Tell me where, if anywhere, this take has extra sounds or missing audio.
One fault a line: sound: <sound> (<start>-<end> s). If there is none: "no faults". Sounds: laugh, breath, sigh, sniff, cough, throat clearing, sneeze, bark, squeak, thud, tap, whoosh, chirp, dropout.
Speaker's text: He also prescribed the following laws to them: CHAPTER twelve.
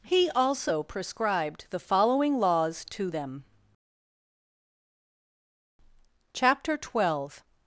no faults